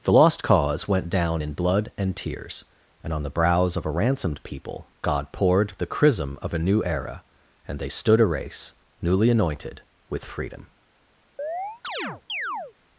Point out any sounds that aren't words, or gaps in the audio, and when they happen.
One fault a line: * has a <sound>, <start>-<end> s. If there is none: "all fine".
* has a chirp, 11.4-12.7 s